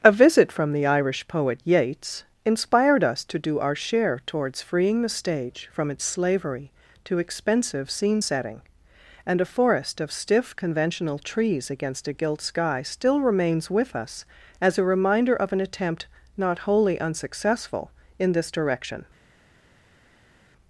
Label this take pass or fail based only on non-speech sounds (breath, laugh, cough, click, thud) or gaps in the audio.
pass